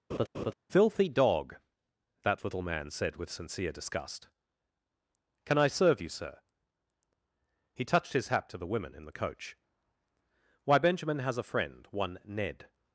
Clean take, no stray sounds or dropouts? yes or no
no